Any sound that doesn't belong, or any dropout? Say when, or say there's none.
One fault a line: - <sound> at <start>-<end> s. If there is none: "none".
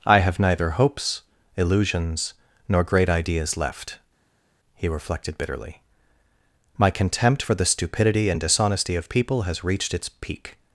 none